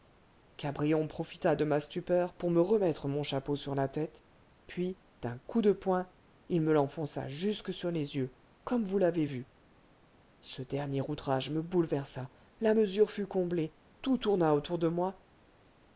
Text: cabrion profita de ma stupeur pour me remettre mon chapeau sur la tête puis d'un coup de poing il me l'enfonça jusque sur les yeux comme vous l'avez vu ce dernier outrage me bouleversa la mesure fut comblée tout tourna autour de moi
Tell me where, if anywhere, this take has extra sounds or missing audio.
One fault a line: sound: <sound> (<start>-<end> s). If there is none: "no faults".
no faults